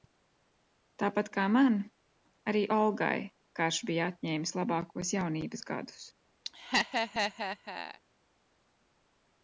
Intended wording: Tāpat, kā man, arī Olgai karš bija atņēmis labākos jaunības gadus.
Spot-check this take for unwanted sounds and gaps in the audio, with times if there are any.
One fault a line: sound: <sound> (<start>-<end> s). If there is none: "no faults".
sound: laugh (6.5-8.0 s)